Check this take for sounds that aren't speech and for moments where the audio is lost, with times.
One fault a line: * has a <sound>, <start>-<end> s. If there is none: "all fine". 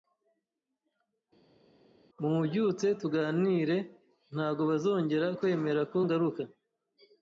all fine